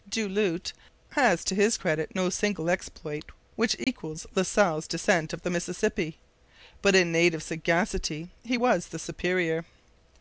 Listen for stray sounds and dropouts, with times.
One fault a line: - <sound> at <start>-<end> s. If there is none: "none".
- dropout at 3.8-3.9 s